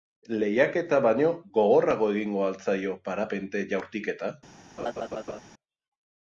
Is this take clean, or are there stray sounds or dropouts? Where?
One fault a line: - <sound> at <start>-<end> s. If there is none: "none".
- laugh at 4.8-5.4 s